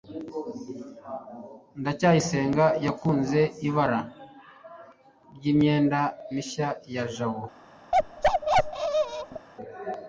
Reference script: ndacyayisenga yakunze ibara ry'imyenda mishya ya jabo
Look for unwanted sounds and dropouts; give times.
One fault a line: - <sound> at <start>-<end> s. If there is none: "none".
- bark at 7.9-9.5 s